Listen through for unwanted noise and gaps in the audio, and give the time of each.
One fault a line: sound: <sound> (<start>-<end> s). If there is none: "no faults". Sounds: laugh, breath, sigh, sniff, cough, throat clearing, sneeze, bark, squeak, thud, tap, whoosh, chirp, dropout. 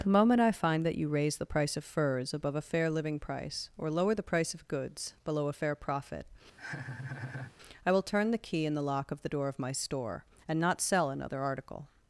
sound: laugh (6.6-7.6 s)